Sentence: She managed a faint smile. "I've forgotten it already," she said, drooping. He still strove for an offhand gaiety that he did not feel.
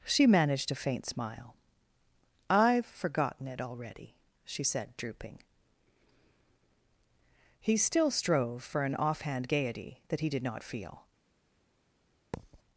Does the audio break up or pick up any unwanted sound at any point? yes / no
yes